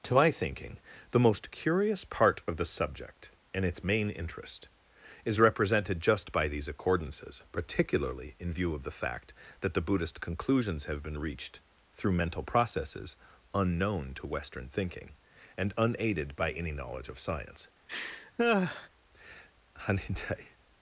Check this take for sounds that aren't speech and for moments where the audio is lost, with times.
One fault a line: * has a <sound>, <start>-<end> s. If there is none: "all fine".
* has a laugh, 17.9-18.9 s